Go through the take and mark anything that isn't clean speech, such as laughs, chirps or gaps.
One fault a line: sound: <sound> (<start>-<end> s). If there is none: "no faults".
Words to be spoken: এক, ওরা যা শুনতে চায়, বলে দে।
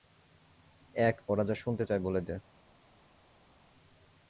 no faults